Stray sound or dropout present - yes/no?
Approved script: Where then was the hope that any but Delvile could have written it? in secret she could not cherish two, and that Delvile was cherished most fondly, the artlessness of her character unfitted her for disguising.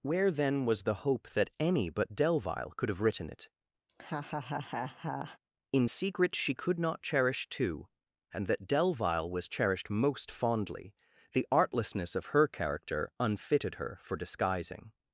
yes